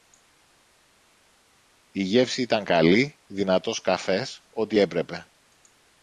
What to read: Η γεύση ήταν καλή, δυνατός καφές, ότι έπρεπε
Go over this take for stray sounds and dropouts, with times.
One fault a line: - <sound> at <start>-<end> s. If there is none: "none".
none